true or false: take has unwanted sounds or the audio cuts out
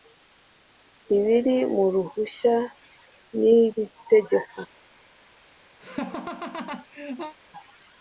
true